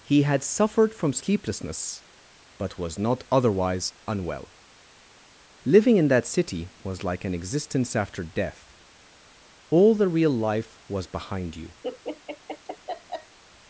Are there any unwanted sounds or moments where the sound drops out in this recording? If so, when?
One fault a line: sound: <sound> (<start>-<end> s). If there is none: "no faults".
sound: laugh (11.8-13.4 s)